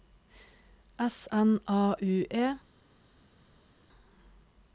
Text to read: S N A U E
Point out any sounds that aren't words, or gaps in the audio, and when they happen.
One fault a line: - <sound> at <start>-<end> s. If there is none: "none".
none